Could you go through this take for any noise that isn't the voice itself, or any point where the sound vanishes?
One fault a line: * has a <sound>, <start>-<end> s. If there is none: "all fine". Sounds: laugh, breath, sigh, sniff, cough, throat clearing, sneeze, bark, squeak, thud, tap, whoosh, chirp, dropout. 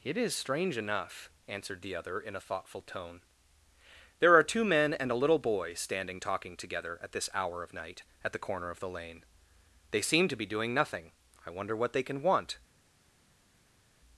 all fine